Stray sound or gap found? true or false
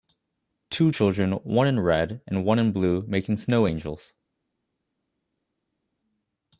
false